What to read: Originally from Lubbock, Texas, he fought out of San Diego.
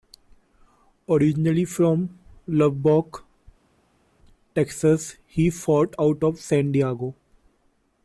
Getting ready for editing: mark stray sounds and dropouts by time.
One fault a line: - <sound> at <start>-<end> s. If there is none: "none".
none